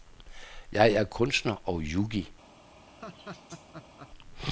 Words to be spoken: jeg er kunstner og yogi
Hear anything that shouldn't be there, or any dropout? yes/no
yes